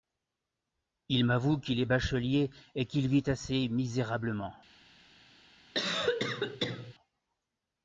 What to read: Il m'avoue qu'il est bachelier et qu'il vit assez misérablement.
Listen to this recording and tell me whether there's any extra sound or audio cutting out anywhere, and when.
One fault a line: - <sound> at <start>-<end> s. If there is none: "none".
- cough at 5.7-6.9 s